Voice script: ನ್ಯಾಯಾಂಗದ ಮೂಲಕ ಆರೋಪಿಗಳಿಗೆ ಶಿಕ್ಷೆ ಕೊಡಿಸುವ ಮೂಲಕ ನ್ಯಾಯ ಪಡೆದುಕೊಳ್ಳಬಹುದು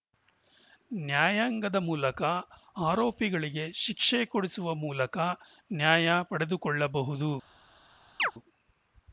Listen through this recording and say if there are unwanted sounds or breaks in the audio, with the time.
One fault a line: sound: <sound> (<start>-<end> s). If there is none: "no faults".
sound: chirp (8.2-8.3 s)